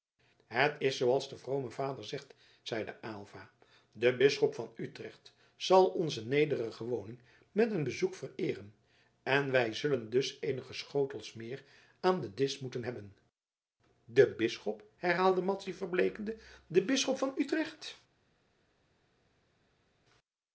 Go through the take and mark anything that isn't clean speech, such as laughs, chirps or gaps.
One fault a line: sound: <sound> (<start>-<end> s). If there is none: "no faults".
no faults